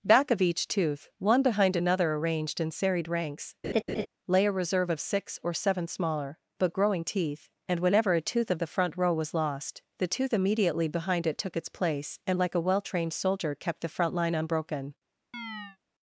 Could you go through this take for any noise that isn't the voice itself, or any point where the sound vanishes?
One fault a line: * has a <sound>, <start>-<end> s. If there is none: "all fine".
* has a laugh, 3.6-4.1 s
* has a chirp, 15.3-15.8 s